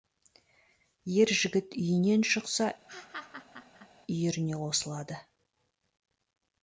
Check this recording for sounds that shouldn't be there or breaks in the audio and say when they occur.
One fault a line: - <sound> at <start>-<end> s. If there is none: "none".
- laugh at 2.9-3.9 s